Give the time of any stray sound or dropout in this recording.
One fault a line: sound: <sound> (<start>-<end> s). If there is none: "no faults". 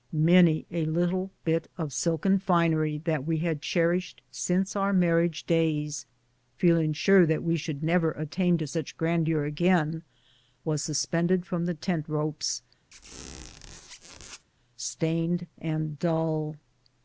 sound: squeak (12.9-14.4 s)